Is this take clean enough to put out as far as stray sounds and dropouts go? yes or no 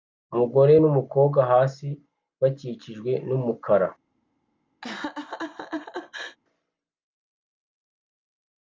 no